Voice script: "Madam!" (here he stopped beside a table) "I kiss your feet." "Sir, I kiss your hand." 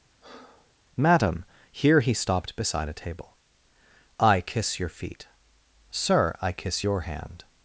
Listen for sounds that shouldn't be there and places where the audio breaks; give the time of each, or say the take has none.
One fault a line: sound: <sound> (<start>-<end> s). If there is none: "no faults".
sound: breath (0.2-0.7 s)